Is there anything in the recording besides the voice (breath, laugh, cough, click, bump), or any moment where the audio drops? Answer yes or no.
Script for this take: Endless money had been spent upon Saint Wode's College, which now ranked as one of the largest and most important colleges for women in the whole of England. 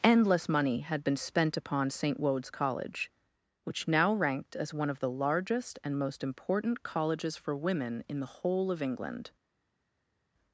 no